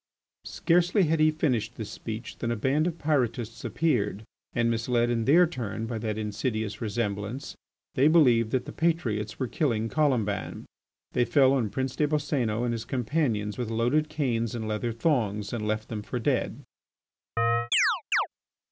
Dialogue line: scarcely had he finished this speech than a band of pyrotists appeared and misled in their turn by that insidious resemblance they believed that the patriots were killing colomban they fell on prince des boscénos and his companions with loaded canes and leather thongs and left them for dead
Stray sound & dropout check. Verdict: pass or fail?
fail